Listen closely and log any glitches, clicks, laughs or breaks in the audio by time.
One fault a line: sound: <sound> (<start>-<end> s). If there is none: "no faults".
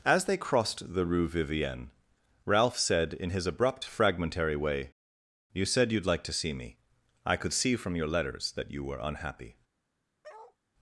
sound: bark (10.2-10.6 s)